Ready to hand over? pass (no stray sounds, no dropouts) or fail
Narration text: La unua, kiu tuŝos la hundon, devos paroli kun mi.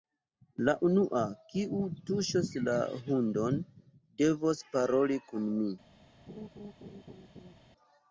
fail